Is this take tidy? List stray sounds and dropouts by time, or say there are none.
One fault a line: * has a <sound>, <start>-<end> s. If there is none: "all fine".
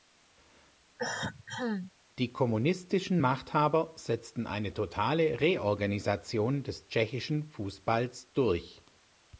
* has a cough, 1.0-1.9 s